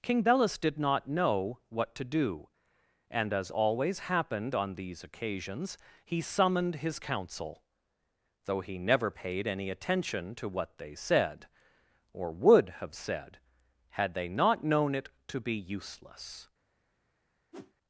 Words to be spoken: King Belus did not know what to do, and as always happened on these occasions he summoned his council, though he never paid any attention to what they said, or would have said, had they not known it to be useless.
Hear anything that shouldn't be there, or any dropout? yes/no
yes